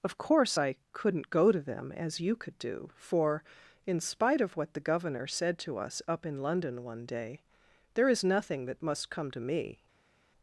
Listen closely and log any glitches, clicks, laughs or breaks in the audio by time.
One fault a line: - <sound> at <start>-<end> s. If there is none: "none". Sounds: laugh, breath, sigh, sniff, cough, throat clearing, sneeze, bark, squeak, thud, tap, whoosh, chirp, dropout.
none